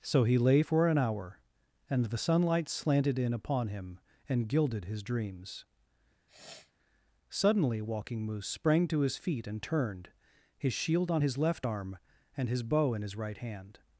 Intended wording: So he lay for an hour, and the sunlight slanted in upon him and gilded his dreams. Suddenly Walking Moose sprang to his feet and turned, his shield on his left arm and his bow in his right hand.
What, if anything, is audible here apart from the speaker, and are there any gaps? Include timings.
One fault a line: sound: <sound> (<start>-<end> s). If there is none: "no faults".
sound: sniff (6.3-6.7 s)